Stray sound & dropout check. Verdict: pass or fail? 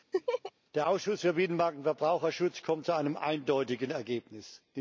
fail